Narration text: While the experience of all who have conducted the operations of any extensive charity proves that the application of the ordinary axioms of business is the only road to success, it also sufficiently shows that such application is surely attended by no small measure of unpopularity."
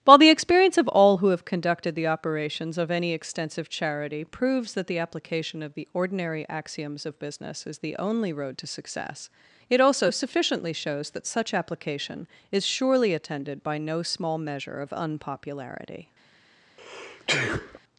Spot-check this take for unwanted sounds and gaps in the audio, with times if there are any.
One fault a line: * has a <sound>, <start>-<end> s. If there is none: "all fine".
* has a sneeze, 16.8-17.8 s